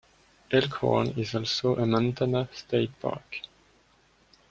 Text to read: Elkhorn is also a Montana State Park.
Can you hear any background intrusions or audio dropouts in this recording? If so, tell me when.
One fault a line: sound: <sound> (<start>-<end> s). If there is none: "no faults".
no faults